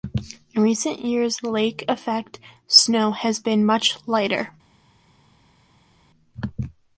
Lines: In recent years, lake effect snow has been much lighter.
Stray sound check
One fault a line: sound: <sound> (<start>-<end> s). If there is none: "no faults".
no faults